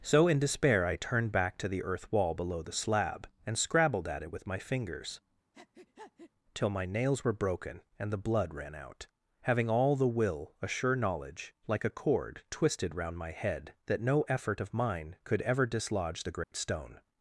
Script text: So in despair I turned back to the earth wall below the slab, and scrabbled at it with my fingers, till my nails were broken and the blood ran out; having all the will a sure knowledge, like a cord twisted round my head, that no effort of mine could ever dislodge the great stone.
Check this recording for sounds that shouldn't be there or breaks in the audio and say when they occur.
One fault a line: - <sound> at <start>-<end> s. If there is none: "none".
- breath at 5.5-6.3 s
- dropout at 16.4-16.5 s